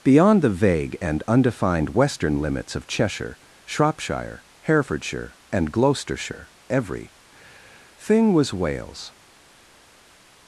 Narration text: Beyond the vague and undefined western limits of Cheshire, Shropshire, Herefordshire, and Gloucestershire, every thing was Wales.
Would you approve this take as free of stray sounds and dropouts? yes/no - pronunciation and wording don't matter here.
yes